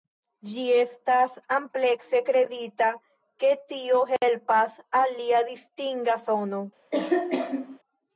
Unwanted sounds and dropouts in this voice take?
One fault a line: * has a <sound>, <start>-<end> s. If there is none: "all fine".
* has a cough, 6.9-7.8 s